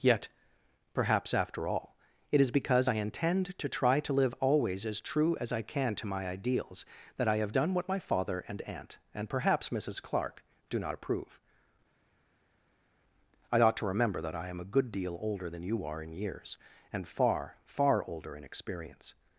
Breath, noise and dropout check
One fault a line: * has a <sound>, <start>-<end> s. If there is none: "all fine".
all fine